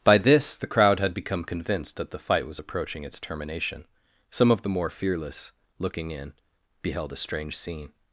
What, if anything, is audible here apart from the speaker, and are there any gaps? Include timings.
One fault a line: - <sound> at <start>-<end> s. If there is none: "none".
none